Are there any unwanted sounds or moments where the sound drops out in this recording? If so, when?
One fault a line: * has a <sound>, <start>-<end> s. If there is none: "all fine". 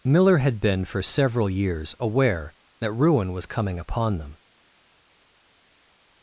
all fine